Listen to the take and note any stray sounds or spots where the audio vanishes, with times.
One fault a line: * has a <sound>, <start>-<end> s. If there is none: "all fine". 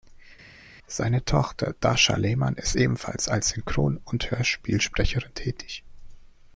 all fine